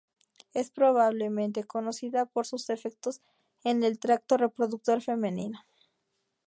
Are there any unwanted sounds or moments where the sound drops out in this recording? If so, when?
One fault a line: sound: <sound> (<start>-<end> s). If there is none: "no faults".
no faults